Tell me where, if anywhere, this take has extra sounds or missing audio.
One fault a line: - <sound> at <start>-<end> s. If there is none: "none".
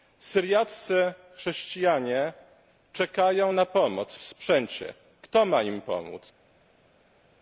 none